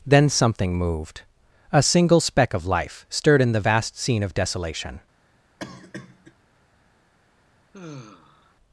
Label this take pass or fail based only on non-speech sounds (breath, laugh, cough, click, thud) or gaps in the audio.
fail